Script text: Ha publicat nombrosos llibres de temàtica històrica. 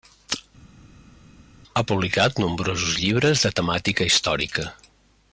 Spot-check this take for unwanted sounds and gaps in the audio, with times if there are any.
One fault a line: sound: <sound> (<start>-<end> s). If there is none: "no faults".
no faults